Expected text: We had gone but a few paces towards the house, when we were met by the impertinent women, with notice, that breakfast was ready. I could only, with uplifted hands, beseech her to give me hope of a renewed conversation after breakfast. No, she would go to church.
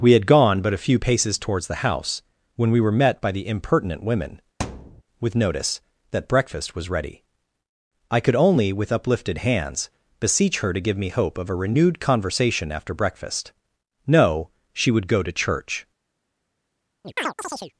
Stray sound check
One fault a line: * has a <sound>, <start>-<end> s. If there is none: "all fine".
* has a thud, 4.6-5.0 s
* has a chirp, 17.0-17.7 s